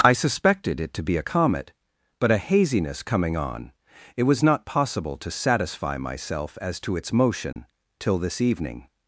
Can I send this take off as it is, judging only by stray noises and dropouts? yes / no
no